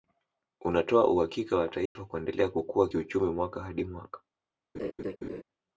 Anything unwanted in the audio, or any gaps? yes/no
yes